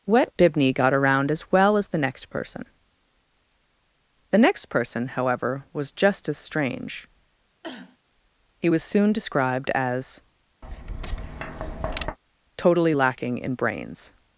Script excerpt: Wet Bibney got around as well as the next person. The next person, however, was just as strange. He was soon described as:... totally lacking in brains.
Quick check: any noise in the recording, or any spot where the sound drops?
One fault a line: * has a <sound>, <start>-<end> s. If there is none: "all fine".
* has a cough, 7.6-8.0 s
* has a tap, 10.6-12.2 s